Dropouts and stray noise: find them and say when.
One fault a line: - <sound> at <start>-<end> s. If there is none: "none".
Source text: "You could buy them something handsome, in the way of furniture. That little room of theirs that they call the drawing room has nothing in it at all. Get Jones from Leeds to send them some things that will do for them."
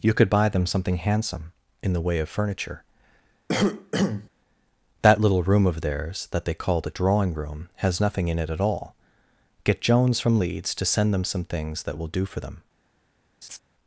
- cough at 3.5-4.3 s
- laugh at 13.4-13.6 s